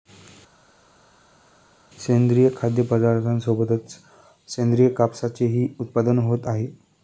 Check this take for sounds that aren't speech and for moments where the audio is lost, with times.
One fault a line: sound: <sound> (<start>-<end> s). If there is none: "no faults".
no faults